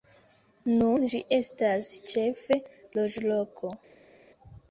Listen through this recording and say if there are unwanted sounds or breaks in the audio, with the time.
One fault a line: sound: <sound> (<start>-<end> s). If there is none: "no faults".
no faults